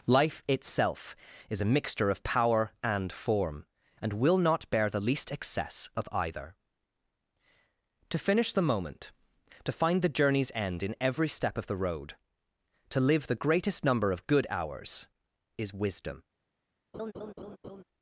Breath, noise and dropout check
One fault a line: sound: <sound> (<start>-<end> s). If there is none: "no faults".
sound: laugh (16.9-17.8 s)